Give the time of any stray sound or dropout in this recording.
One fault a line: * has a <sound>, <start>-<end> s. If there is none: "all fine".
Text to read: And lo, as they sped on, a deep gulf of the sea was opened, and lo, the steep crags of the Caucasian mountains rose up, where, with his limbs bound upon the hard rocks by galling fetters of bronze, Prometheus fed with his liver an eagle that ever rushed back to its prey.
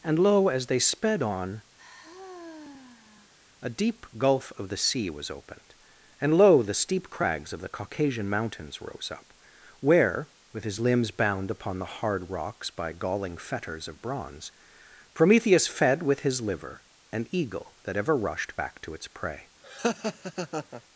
* has a sigh, 1.8-3.3 s
* has a laugh, 19.6-20.8 s